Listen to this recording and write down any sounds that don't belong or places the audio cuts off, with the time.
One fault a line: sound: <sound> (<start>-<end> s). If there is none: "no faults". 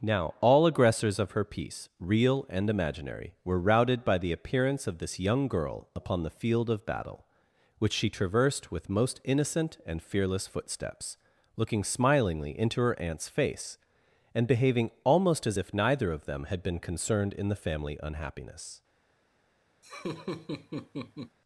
sound: laugh (19.8-21.4 s)